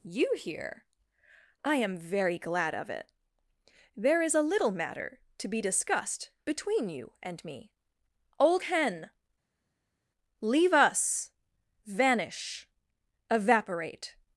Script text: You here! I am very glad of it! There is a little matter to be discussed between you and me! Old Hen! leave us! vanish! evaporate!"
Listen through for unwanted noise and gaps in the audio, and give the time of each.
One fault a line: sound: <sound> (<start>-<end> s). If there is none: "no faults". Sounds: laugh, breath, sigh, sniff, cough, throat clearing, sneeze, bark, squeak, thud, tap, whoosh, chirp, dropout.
no faults